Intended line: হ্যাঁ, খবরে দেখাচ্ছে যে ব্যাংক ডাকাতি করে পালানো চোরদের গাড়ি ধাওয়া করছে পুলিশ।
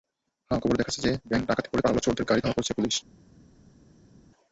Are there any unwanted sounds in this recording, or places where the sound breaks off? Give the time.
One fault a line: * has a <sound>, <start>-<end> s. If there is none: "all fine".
all fine